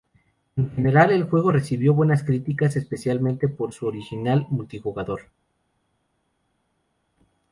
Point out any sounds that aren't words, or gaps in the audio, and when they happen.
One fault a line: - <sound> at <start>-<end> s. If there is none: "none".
none